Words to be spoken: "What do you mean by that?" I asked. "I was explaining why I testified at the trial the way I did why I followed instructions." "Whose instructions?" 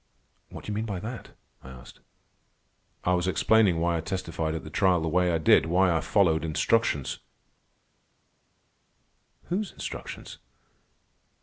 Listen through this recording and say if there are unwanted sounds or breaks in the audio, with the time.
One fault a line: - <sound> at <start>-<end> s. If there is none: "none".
none